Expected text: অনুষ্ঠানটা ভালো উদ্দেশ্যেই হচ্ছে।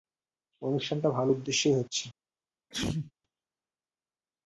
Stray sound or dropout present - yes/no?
yes